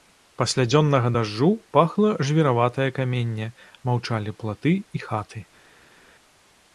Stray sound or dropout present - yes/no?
no